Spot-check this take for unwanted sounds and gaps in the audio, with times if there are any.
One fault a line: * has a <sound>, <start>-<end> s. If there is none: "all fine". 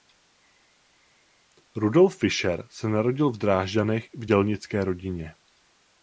all fine